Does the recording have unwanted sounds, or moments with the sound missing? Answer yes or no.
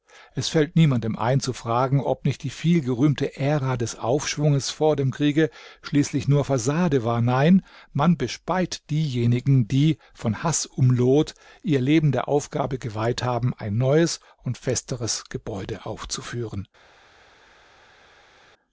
no